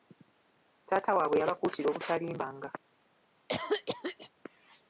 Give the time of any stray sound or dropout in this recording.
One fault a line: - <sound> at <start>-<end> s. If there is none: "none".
- cough at 3.5-4.3 s